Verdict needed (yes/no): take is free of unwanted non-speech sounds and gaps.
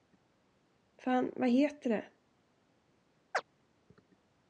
no